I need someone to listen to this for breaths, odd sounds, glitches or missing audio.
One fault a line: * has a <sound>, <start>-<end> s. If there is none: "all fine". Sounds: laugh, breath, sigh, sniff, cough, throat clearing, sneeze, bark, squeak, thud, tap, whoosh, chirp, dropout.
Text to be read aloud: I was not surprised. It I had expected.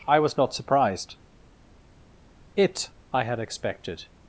all fine